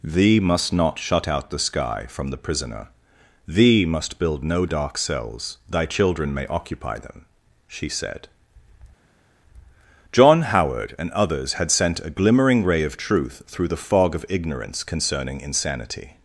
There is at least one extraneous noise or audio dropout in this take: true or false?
false